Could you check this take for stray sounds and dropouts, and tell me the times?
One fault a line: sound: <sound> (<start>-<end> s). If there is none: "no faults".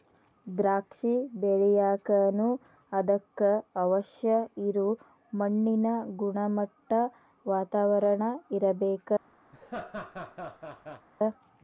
sound: laugh (9.5-11.1 s)